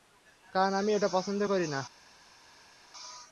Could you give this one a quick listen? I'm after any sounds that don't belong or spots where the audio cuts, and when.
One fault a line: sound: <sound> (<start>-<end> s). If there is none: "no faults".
no faults